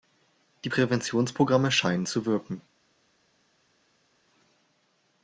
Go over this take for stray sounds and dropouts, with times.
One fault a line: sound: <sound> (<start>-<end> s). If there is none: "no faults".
no faults